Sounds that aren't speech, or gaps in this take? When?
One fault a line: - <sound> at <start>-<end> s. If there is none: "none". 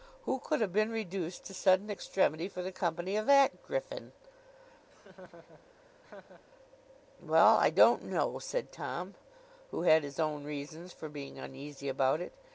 - laugh at 4.9-6.4 s